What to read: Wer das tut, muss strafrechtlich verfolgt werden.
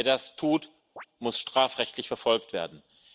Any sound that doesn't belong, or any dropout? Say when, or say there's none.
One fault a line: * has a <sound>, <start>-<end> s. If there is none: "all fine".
* has a chirp, 1.0-1.1 s